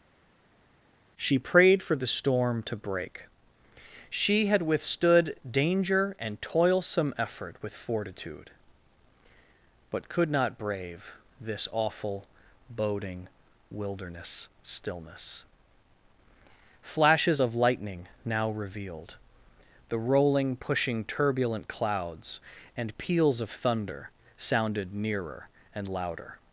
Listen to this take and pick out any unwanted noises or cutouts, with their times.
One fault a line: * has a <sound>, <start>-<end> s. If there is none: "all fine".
all fine